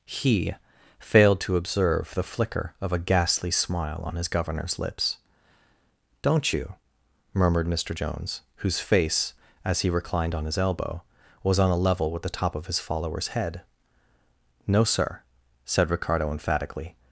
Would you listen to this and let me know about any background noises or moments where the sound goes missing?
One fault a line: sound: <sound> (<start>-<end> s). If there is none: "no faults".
no faults